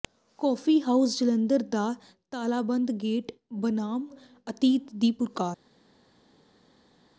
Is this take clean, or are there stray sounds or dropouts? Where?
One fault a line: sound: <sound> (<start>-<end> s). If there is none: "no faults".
no faults